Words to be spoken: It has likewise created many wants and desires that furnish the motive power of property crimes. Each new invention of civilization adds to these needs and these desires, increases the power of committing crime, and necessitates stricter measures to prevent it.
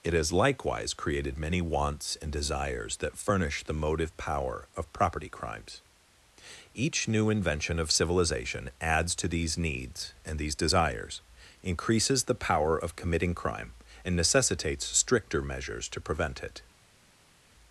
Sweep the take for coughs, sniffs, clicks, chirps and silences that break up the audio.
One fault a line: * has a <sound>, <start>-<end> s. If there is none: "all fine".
all fine